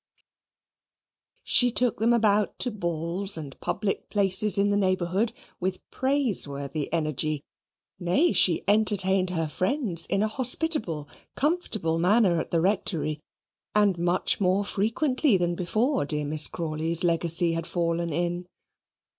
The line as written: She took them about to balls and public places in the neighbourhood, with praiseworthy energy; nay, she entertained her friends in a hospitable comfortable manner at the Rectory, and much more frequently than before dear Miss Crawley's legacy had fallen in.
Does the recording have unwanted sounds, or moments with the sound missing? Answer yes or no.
no